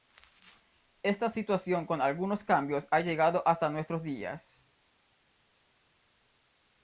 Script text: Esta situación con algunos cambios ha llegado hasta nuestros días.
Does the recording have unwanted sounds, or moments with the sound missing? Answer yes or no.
no